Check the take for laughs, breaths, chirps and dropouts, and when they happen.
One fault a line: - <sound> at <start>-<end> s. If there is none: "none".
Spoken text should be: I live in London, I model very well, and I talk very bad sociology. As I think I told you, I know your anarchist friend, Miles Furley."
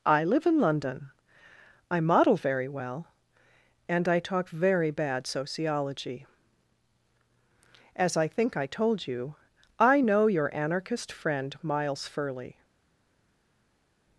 none